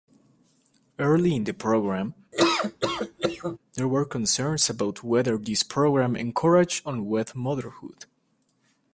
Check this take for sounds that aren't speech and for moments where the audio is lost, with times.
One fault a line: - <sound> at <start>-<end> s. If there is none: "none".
- laugh at 2.3-3.6 s